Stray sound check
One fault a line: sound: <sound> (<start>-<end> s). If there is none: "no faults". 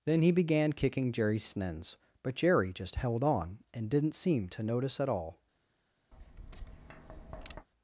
sound: tap (6.1-7.7 s)